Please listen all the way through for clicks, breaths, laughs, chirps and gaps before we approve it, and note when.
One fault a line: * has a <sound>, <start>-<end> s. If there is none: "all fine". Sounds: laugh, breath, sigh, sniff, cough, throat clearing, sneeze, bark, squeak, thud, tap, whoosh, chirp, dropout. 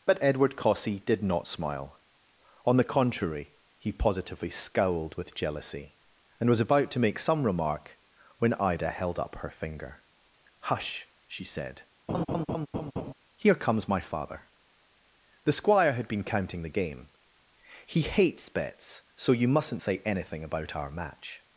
* has a laugh, 12.1-13.1 s